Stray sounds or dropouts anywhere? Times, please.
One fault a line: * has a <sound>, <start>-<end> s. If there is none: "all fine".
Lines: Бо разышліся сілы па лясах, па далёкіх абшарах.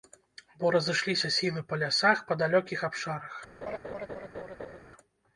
* has a laugh, 3.6-4.8 s